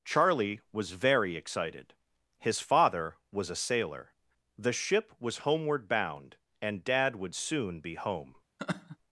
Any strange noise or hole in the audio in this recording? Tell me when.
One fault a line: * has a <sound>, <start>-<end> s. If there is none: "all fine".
* has a laugh, 8.6-9.0 s